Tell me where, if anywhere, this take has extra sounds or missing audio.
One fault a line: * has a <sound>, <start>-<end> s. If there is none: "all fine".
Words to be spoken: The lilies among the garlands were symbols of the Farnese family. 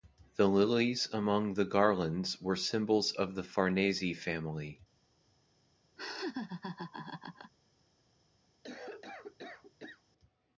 * has a laugh, 6.0-7.5 s
* has a cough, 8.6-10.0 s